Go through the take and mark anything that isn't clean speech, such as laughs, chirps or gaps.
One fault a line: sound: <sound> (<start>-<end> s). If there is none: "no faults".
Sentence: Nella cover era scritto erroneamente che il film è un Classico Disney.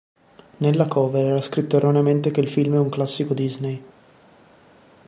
no faults